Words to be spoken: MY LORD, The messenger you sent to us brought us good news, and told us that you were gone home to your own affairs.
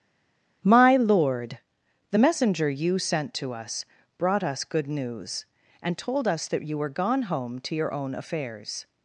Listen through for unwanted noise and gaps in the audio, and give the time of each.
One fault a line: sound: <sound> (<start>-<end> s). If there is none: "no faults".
no faults